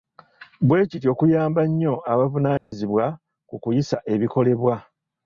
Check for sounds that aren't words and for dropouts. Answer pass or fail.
fail